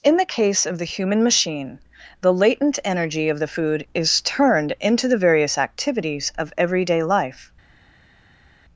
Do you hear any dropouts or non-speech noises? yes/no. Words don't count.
no